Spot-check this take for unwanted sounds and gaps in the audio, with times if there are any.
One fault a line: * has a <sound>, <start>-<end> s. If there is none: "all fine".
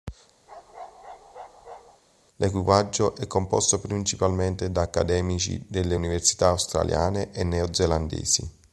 * has a bark, 0.5-2.0 s